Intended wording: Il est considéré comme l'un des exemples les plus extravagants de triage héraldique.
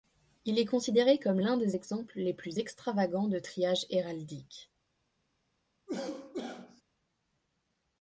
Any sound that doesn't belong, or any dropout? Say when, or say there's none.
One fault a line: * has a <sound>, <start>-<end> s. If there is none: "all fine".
* has a cough, 5.9-6.8 s